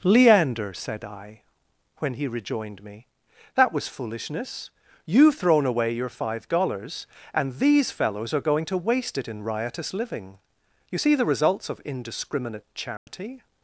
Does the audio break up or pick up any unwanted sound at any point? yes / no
yes